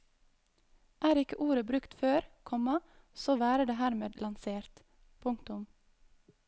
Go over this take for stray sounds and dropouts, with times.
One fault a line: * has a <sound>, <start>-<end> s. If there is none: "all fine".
all fine